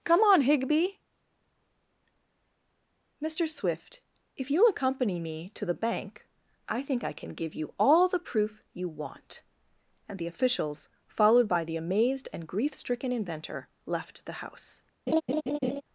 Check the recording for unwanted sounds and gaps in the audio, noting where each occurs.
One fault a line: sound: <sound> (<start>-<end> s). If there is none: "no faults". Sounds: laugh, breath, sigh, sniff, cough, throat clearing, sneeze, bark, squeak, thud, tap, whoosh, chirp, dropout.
sound: laugh (15.1-15.8 s)